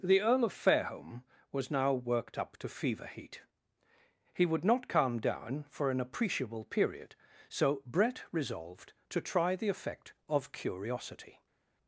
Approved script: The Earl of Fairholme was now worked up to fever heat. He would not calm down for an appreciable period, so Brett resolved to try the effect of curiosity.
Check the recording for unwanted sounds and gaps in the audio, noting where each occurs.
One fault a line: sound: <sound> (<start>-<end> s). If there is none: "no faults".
no faults